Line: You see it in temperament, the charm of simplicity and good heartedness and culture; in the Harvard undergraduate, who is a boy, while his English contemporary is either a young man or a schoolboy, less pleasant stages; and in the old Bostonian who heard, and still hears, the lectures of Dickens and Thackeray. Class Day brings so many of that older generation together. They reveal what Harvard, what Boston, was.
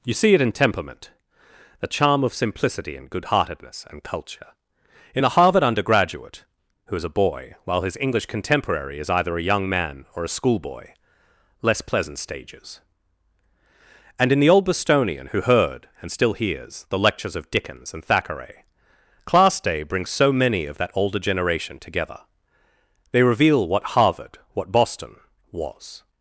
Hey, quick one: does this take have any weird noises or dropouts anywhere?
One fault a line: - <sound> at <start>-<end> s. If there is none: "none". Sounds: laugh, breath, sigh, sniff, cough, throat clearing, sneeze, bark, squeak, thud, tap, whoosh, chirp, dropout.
none